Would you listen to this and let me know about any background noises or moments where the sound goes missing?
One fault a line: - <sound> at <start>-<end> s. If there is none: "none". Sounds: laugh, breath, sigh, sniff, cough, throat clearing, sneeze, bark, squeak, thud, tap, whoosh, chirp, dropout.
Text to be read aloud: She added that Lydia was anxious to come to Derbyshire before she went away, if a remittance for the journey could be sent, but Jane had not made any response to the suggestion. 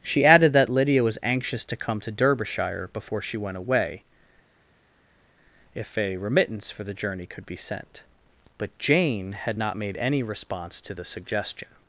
none